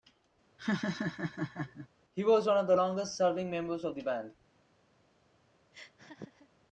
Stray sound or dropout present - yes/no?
yes